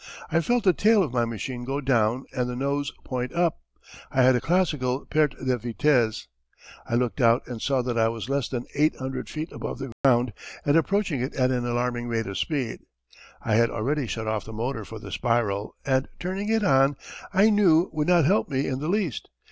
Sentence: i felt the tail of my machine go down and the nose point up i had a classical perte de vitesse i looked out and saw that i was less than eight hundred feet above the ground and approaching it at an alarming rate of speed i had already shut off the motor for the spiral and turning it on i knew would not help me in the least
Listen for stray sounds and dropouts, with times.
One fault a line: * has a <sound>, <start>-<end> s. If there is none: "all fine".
* has a dropout, 9.9-10.0 s